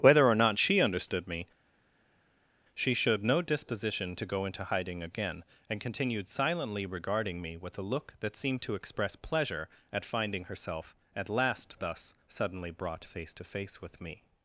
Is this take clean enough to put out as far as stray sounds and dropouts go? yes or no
yes